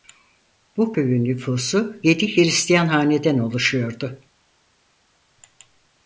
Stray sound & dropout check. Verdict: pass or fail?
pass